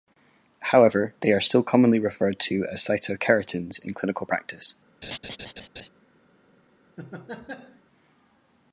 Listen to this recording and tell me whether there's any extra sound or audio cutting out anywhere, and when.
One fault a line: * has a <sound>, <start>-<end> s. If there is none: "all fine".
* has a laugh, 5.0-5.9 s
* has a laugh, 7.0-7.8 s